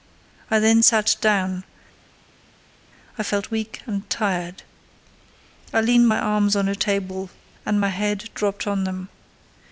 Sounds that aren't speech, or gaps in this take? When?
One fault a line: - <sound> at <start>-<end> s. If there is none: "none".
none